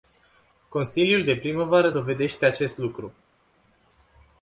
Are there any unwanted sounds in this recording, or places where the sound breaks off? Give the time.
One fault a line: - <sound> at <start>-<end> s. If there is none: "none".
none